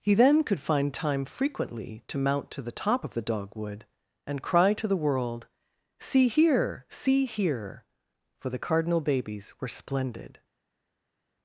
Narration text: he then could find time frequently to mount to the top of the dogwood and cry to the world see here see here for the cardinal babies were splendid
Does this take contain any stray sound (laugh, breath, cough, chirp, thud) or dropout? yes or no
no